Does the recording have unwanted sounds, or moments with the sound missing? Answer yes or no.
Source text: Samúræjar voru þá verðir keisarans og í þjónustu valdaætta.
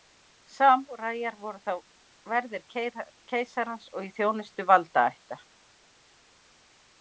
no